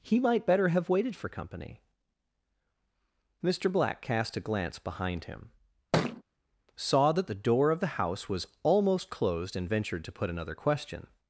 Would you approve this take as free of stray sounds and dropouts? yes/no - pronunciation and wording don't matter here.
no